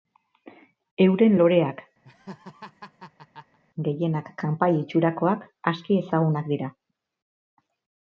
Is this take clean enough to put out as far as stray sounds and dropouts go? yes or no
no